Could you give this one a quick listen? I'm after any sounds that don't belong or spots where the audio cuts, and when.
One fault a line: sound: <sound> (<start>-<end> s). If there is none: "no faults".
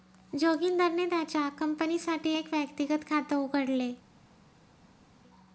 no faults